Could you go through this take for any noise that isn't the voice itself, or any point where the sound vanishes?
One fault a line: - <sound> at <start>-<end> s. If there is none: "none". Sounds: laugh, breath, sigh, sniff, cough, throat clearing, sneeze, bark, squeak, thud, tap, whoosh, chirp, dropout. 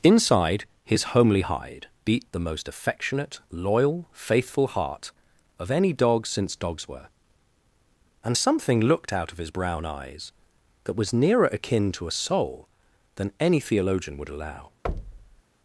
- thud at 14.8-15.4 s